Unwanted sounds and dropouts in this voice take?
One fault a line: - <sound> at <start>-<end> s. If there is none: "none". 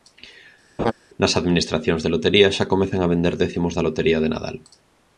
- laugh at 0.8-0.9 s